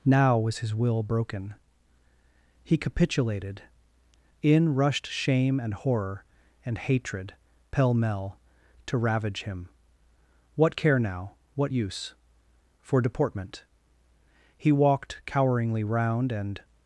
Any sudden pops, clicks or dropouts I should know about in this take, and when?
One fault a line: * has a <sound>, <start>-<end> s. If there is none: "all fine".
all fine